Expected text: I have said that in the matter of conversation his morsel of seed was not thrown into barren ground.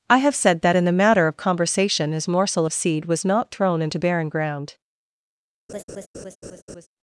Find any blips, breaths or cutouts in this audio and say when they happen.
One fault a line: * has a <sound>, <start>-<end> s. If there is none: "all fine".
* has a laugh, 5.7-6.9 s